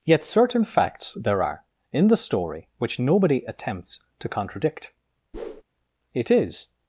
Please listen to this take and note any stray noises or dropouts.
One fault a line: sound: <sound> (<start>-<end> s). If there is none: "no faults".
sound: whoosh (5.3-5.6 s)